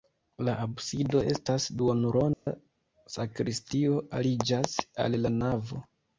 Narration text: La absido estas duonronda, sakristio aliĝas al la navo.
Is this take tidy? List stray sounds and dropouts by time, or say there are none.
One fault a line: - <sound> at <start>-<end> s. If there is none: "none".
- dropout at 2.3-2.5 s